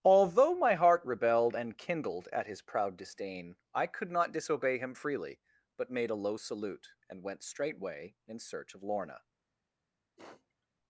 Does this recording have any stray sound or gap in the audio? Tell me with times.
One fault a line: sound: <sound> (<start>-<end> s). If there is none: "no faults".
sound: sniff (10.2-10.7 s)